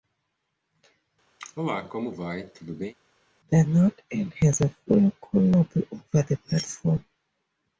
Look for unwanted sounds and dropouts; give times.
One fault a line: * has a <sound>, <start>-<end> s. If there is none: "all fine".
* has a cough, 1.4-2.9 s